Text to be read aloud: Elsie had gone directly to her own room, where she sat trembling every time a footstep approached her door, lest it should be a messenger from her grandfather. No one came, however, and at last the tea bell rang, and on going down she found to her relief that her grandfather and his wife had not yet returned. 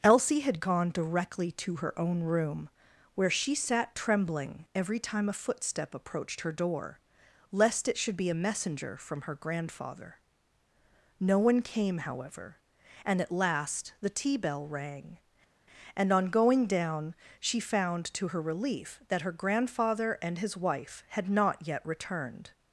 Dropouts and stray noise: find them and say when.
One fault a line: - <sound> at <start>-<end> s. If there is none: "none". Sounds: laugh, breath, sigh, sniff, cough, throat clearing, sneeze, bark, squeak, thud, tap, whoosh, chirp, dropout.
none